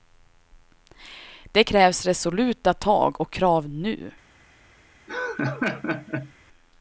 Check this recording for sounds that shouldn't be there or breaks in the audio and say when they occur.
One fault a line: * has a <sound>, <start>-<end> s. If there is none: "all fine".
* has a laugh, 5.1-6.3 s